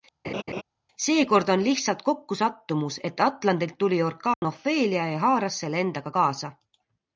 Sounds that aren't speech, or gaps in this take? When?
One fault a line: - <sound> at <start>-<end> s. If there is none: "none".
- laugh at 0.2-0.6 s
- dropout at 4.3-4.4 s